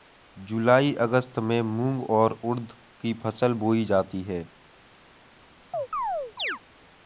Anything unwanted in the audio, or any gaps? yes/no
yes